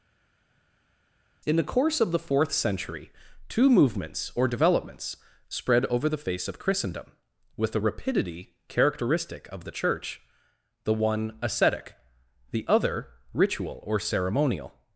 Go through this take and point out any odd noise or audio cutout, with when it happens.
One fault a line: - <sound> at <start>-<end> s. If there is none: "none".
none